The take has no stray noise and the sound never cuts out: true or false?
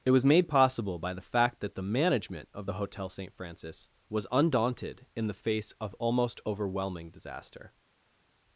true